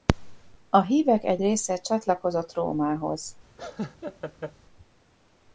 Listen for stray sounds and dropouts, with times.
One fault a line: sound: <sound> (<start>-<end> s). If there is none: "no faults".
sound: laugh (3.6-4.5 s)